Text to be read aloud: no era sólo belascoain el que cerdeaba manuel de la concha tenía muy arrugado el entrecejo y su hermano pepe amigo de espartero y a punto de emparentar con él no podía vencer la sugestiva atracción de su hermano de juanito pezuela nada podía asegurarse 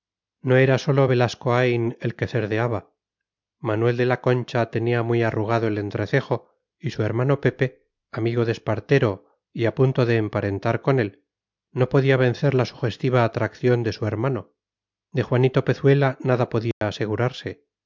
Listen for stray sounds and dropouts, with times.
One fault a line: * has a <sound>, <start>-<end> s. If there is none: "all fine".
* has a dropout, 16.7-16.8 s